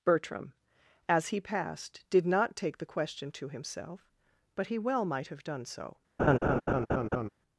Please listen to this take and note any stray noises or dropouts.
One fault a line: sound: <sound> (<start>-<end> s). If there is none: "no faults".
sound: laugh (6.2-7.3 s)